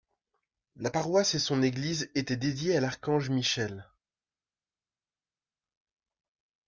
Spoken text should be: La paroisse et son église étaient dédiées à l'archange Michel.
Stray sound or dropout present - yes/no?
no